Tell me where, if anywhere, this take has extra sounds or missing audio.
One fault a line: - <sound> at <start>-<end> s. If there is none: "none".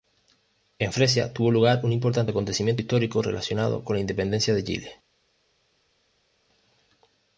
none